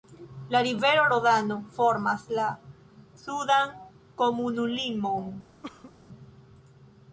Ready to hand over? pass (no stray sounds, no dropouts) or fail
fail